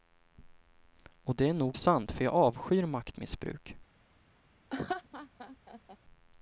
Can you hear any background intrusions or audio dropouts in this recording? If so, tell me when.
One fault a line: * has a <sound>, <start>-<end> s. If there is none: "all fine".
* has a laugh, 4.7-6.0 s